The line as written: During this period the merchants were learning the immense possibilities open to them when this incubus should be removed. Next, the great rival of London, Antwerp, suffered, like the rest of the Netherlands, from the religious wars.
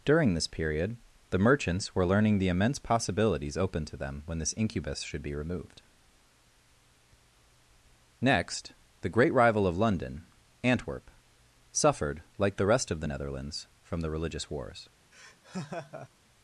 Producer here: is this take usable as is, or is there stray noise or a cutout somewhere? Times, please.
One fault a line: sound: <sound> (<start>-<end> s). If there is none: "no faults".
sound: laugh (15.1-16.1 s)